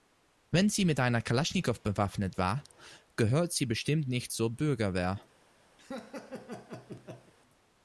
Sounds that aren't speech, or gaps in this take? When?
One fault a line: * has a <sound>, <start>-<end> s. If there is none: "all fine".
* has a laugh, 5.8-7.3 s